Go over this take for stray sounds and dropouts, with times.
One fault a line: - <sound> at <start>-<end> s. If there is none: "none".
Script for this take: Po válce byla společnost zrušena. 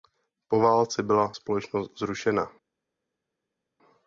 none